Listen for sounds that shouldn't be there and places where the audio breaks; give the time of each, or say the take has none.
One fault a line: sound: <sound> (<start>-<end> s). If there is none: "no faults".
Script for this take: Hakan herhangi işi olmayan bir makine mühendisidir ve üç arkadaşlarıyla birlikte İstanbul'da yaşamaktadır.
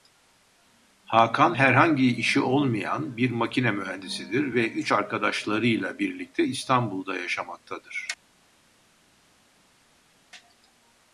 no faults